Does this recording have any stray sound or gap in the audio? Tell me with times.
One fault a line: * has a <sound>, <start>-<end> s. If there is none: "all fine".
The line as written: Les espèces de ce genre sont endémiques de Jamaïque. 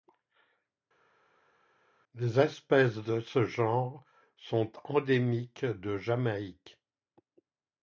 all fine